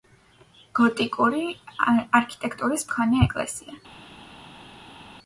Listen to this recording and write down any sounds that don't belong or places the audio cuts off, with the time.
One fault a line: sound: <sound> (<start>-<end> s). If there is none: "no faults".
no faults